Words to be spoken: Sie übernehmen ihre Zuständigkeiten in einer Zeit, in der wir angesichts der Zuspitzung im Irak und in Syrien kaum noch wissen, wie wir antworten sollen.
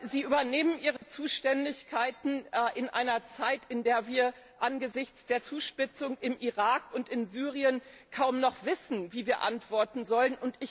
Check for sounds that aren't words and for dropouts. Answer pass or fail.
fail